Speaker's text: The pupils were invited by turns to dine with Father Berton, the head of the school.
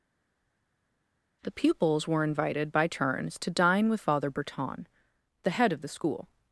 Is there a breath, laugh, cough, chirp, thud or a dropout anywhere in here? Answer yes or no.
no